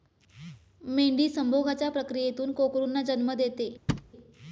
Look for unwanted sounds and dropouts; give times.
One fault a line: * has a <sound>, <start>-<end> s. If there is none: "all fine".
* has a thud, 3.9-4.1 s